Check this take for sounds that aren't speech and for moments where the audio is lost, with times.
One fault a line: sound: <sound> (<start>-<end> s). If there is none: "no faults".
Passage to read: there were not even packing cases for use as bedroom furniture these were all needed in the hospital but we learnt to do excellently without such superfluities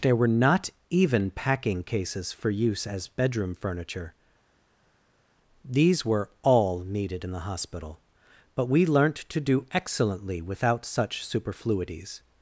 no faults